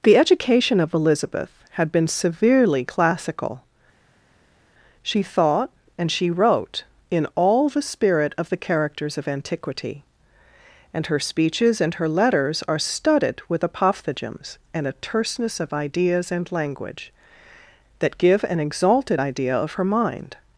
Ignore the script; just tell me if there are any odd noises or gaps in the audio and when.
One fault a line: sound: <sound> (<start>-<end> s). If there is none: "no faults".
no faults